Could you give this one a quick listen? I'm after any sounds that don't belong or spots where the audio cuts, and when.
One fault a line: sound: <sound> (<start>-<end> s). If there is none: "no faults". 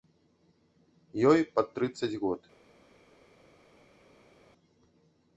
no faults